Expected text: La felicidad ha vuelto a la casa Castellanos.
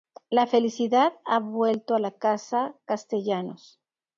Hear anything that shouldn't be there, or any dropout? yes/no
no